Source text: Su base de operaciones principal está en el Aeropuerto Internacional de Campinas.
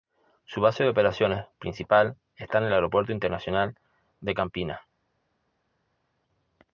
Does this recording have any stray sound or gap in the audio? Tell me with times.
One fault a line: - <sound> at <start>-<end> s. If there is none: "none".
none